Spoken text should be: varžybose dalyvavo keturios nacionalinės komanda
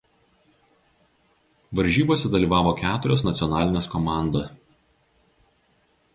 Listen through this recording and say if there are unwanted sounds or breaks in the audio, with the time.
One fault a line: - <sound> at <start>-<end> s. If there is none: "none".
none